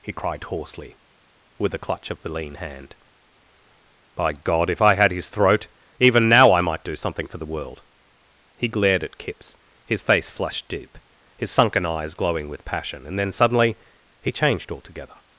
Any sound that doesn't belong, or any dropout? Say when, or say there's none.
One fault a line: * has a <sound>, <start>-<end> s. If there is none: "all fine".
all fine